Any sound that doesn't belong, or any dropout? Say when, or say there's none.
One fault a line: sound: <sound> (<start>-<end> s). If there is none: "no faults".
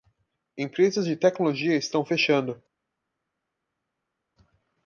no faults